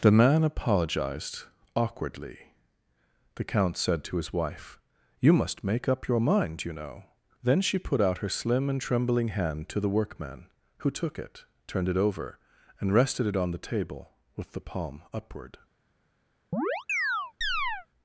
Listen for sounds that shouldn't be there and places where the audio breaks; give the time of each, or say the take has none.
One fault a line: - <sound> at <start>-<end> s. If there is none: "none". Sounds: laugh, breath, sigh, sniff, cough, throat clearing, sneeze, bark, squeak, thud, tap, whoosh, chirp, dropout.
- chirp at 16.5-17.9 s